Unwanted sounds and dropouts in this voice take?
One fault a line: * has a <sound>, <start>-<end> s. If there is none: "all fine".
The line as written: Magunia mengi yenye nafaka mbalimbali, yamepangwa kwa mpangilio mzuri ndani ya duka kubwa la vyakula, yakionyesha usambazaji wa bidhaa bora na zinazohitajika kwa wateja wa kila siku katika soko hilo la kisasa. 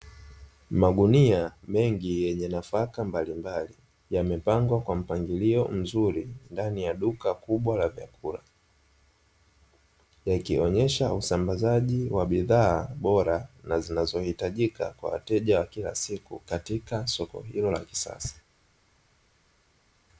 all fine